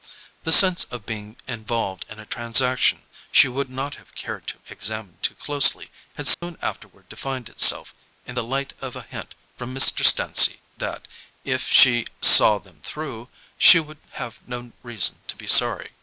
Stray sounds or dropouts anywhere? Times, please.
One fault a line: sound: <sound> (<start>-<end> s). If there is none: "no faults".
sound: dropout (6.3-6.4 s)